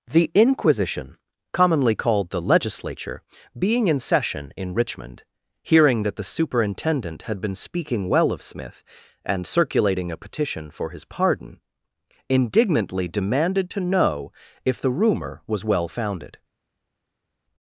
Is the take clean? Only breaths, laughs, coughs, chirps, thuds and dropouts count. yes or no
yes